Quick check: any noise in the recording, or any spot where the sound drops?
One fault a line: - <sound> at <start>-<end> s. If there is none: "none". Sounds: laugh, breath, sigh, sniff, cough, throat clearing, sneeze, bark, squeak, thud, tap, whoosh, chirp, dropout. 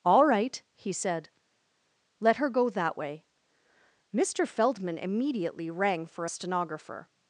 none